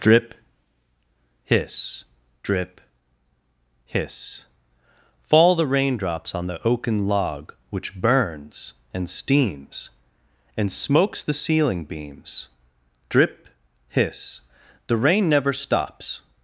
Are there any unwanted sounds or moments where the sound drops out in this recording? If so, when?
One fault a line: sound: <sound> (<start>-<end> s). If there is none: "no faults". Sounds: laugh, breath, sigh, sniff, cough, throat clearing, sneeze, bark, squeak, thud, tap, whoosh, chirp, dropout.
no faults